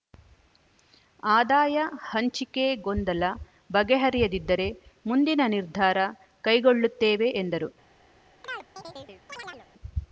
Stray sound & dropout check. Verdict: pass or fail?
fail